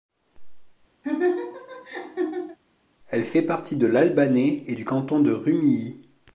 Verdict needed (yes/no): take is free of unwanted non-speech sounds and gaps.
no